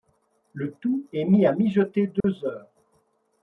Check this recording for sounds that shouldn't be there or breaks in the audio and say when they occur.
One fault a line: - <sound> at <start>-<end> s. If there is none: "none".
- dropout at 2.2-2.2 s